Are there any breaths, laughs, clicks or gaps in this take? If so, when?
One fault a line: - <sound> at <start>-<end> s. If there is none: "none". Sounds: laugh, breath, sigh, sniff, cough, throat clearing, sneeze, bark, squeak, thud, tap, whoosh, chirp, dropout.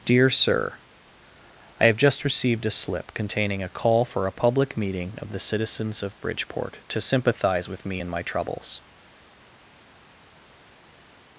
none